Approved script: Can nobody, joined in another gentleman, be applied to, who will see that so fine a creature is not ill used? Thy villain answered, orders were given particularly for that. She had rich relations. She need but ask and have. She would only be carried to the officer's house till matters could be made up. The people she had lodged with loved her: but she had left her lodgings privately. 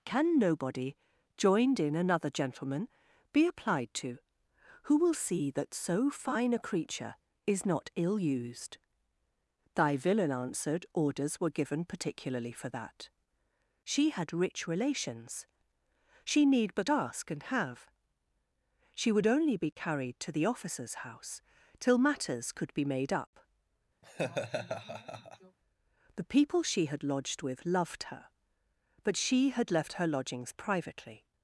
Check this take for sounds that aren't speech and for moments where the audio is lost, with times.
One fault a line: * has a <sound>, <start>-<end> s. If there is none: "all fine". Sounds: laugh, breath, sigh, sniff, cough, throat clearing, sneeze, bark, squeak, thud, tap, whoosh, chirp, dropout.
* has a laugh, 24.0-25.6 s